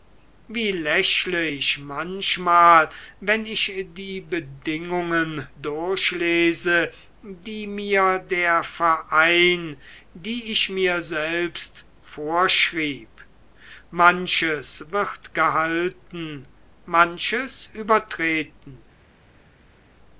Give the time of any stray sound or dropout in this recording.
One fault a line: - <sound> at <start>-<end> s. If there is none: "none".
none